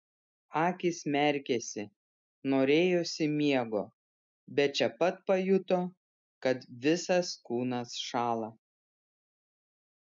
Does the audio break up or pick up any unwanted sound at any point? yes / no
no